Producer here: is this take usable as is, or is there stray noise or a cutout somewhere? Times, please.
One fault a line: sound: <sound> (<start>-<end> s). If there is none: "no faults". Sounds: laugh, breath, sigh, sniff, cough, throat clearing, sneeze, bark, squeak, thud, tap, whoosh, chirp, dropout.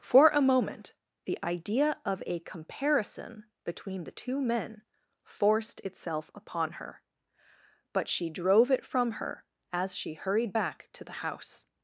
no faults